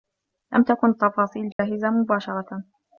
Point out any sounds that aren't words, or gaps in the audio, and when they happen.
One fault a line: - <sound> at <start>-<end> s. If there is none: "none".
- dropout at 1.5-1.6 s